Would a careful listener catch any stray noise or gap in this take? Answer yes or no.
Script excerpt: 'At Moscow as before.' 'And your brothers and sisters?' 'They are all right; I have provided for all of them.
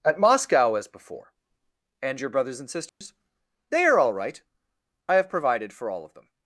yes